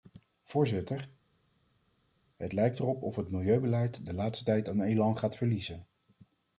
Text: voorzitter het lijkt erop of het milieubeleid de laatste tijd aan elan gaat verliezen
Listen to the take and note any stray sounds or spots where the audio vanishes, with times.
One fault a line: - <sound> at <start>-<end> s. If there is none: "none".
none